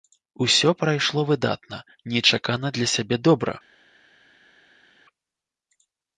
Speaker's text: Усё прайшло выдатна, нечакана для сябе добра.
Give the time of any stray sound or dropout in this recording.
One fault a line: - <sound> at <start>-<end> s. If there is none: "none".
none